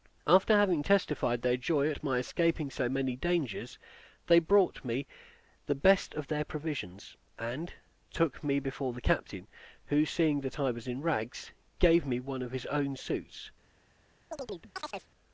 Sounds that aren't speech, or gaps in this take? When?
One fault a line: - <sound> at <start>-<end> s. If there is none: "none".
- chirp at 14.3-15.1 s